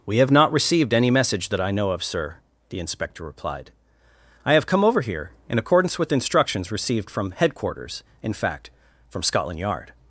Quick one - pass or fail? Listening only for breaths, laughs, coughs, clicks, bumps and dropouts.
pass